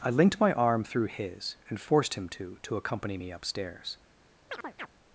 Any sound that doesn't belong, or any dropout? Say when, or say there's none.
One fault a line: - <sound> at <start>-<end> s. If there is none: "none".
- chirp at 4.5-4.9 s